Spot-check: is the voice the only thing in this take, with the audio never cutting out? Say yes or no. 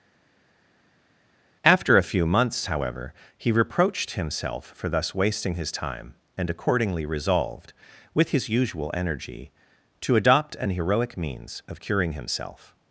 yes